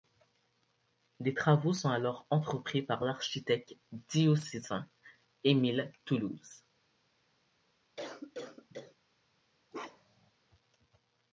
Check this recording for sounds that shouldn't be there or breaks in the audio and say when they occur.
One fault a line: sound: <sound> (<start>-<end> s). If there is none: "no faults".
sound: cough (8.0-9.0 s)
sound: bark (9.7-10.3 s)